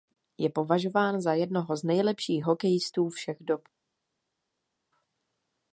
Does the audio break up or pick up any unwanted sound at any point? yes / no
no